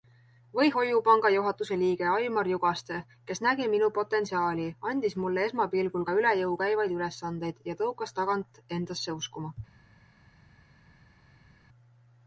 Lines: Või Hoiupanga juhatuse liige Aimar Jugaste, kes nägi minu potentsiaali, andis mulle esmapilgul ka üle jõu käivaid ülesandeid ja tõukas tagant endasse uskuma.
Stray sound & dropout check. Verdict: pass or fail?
pass